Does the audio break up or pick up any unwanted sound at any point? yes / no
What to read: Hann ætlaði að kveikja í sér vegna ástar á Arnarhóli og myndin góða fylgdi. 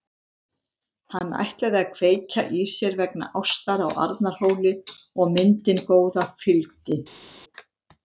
no